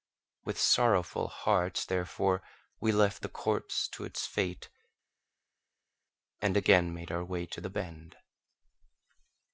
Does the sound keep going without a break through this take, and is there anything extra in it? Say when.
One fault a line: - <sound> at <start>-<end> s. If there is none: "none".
none